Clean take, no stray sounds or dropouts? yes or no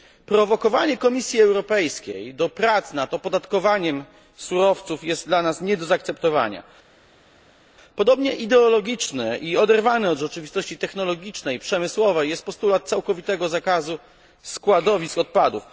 yes